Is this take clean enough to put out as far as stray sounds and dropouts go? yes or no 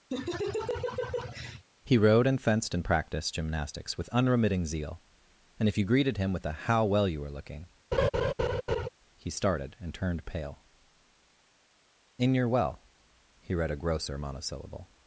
no